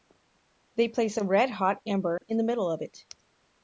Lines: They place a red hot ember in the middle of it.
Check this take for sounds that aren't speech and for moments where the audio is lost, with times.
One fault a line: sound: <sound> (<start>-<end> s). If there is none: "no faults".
sound: dropout (2.2-2.2 s)